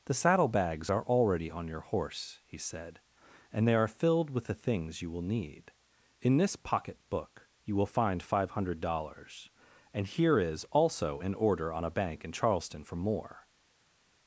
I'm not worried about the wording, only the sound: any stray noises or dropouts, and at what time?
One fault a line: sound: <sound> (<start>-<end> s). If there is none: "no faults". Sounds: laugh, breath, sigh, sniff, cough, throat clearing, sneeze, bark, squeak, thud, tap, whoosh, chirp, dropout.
no faults